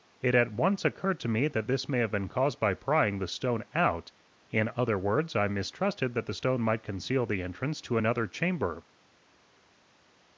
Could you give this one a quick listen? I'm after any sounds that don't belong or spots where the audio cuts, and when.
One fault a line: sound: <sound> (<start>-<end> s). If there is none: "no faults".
no faults